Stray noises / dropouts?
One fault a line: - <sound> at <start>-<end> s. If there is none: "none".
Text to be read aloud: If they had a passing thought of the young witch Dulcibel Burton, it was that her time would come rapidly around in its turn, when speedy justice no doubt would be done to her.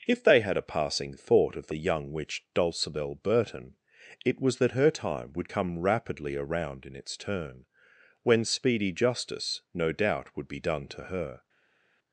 none